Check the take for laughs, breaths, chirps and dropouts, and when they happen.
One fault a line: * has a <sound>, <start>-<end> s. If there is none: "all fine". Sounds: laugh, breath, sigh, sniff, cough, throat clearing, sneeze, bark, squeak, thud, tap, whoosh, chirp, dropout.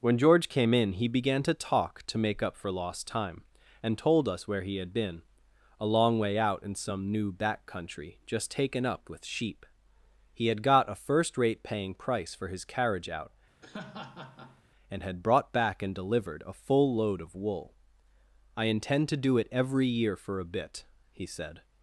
* has a laugh, 13.6-14.6 s